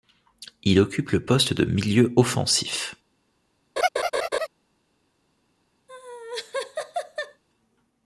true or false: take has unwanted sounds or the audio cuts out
true